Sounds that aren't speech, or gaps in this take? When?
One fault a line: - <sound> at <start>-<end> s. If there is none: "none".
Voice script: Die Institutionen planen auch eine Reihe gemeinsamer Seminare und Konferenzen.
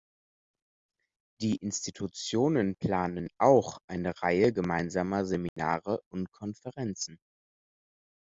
- dropout at 5.5-5.6 s